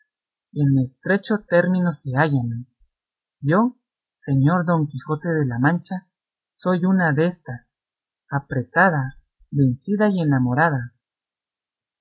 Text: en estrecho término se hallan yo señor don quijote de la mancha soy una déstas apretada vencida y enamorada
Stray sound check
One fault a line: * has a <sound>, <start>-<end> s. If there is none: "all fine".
all fine